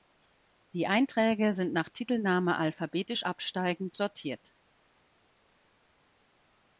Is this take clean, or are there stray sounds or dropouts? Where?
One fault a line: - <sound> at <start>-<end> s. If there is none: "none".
none